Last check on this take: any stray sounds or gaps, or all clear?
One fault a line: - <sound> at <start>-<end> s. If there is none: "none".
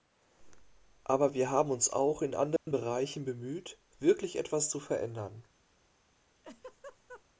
- dropout at 2.6-2.7 s
- laugh at 6.4-7.2 s